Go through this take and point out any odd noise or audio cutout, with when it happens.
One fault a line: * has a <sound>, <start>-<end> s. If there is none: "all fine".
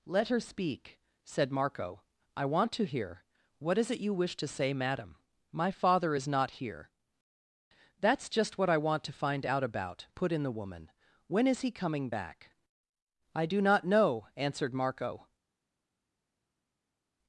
all fine